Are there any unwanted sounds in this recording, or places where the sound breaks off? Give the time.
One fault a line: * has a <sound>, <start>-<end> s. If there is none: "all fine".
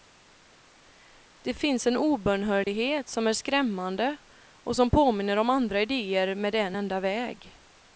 * has a dropout, 2.6-2.7 s